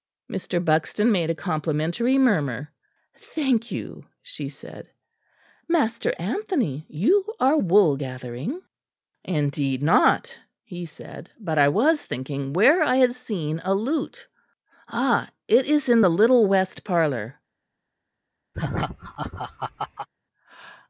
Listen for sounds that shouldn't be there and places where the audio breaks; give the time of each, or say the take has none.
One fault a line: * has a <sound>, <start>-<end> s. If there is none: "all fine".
* has a laugh, 18.5-20.1 s